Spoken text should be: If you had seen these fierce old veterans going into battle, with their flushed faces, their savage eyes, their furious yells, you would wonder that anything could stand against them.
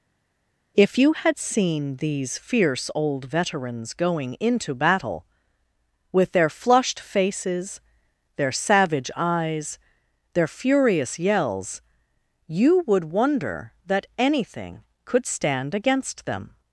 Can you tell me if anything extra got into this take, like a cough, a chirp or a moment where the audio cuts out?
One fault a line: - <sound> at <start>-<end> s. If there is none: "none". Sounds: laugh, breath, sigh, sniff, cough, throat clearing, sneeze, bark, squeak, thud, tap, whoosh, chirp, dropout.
none